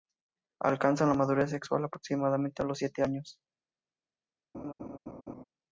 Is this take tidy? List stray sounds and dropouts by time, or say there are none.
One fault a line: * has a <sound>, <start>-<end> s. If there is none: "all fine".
* has a laugh, 4.5-5.4 s